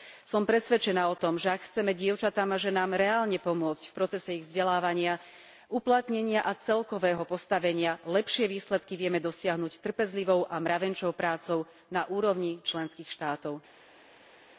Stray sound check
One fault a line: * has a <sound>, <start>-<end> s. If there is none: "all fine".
all fine